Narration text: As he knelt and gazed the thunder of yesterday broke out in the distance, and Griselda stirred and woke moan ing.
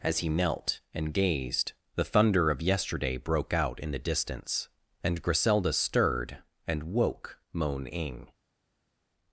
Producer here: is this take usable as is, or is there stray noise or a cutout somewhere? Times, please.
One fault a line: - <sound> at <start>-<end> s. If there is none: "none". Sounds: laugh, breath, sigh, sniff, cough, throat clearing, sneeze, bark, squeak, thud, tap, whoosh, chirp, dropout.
none